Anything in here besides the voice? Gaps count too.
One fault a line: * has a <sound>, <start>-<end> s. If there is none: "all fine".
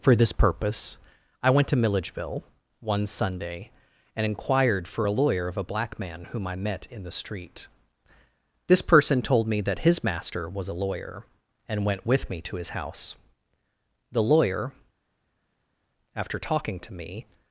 all fine